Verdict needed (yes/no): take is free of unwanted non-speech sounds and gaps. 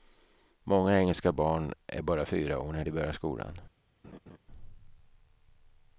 no